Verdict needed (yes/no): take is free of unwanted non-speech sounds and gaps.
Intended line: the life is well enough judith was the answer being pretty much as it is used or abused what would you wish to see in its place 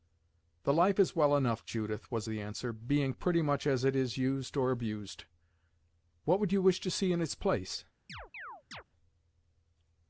no